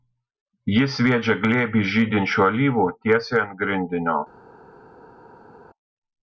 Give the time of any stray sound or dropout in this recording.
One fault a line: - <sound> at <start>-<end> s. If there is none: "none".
none